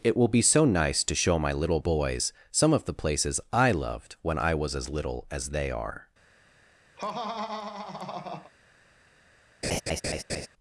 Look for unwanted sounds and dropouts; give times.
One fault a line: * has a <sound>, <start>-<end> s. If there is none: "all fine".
* has a laugh, 7.0-8.5 s
* has a laugh, 9.6-10.5 s